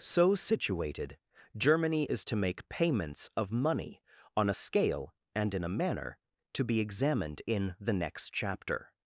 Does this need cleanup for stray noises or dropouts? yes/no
no